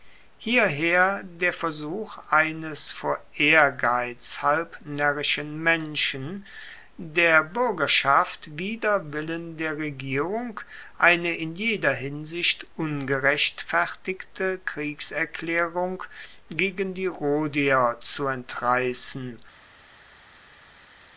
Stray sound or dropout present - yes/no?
no